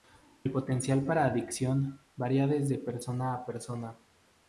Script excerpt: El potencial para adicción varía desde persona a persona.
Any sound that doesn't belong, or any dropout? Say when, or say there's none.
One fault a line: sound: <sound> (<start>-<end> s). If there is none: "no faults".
no faults